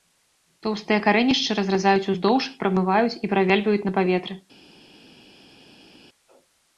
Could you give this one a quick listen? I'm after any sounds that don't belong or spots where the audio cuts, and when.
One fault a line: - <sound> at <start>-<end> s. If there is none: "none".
none